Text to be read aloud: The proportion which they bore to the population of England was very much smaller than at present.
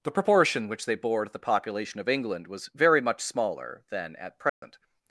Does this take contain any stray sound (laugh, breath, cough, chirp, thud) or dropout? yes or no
yes